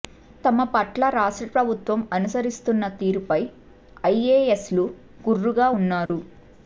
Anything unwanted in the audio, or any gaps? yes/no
yes